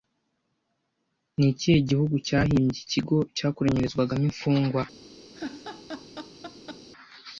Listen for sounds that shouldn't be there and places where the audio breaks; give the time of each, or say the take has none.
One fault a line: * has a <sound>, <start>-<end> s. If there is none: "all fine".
* has a laugh, 5.3-6.9 s